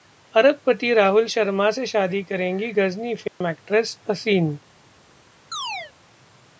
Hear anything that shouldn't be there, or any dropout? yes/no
yes